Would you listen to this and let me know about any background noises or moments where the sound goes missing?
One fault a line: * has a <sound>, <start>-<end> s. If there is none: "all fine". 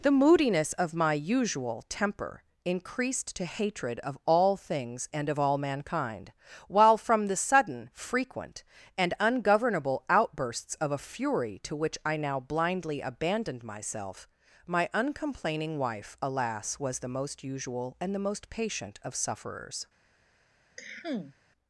* has a cough, 20.8-21.4 s